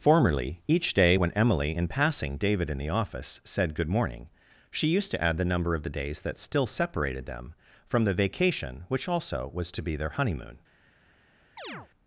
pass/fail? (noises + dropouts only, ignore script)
fail